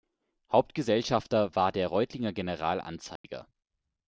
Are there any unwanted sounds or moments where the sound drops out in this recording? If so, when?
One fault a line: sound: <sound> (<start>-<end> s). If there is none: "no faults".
sound: dropout (3.2-3.2 s)